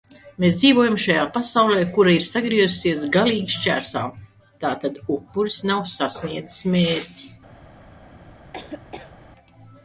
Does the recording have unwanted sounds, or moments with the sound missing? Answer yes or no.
yes